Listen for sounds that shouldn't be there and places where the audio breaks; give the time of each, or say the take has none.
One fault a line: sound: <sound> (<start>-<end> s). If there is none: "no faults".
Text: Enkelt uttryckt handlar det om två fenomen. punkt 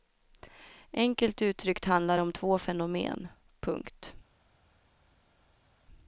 no faults